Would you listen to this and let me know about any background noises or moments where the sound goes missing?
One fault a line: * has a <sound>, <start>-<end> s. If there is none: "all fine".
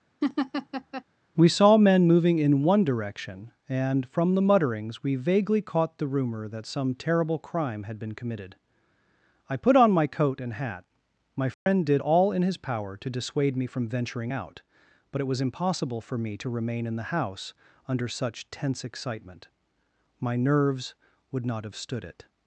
* has a laugh, 0.2-1.0 s
* has a dropout, 11.5-11.7 s